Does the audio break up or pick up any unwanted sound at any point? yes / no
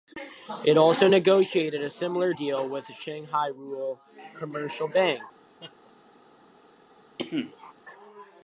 yes